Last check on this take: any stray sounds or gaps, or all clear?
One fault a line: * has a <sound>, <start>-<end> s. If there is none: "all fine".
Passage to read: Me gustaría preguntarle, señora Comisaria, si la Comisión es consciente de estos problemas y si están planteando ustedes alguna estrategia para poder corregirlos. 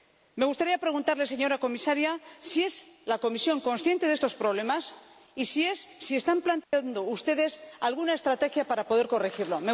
* has a dropout, 6.6-6.7 s